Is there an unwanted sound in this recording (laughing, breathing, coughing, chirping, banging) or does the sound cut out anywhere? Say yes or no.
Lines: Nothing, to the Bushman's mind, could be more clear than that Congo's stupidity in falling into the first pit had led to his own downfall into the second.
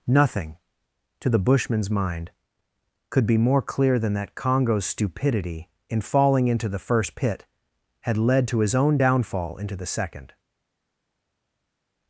no